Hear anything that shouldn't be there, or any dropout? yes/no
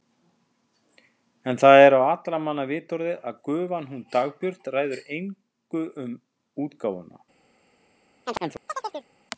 yes